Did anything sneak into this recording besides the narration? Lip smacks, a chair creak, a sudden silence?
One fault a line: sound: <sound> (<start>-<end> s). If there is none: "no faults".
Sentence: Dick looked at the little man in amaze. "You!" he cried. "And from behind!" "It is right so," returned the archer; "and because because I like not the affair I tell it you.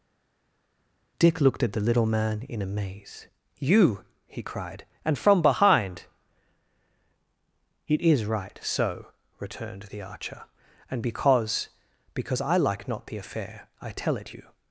no faults